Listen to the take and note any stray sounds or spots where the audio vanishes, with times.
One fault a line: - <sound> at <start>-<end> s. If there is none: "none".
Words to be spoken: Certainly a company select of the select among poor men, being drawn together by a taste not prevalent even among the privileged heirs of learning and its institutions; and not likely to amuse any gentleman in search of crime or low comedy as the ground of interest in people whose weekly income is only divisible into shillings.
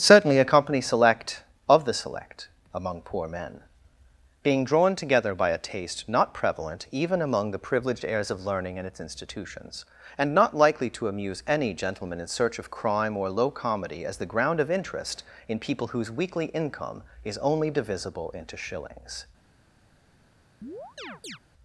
- chirp at 20.6-21.4 s